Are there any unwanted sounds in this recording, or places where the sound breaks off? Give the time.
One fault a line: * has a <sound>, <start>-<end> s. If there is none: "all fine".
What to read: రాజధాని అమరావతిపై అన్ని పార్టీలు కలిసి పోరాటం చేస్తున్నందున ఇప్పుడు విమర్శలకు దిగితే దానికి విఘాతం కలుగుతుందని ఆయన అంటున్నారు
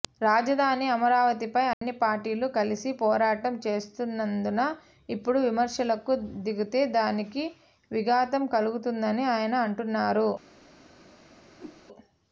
* has a dropout, 1.7-1.8 s
* has a whoosh, 11.6-11.8 s